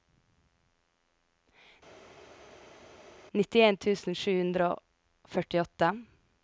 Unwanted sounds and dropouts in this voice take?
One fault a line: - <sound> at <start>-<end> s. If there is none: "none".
none